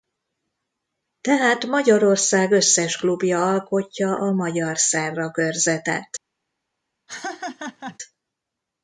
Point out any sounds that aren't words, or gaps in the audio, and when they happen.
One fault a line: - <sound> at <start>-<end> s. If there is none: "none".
- laugh at 7.1-8.0 s